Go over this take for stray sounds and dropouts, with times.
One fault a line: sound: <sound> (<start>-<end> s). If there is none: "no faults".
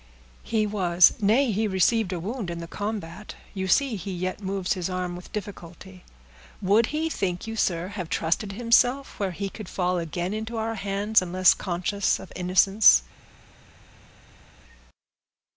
no faults